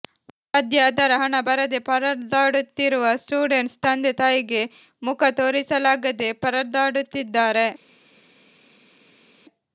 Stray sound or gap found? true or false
false